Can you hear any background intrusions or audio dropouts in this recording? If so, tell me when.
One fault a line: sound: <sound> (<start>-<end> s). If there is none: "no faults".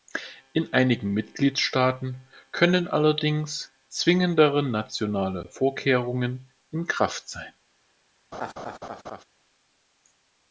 sound: laugh (8.3-9.2 s)